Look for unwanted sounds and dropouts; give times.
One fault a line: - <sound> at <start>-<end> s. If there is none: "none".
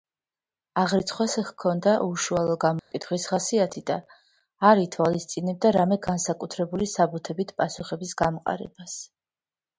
- dropout at 2.8-2.9 s